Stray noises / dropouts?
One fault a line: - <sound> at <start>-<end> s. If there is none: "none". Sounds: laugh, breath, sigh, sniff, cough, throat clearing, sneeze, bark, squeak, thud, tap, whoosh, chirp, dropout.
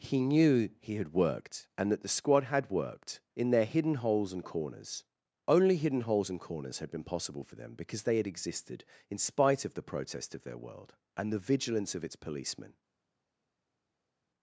none